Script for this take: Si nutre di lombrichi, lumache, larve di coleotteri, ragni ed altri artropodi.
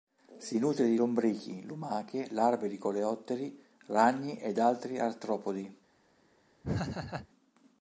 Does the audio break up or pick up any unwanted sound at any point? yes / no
yes